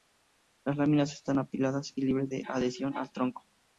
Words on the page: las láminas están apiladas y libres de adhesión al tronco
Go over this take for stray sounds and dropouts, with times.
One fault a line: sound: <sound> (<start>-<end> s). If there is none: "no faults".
no faults